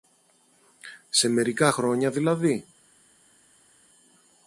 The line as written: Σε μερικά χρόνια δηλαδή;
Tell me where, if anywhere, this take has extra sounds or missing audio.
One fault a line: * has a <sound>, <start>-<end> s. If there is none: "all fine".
all fine